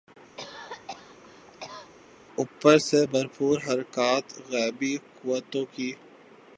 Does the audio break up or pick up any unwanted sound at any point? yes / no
yes